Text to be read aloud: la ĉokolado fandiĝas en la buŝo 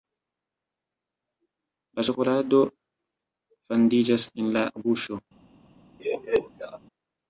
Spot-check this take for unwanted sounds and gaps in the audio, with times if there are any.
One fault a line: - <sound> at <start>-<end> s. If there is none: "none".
- laugh at 6.0-6.8 s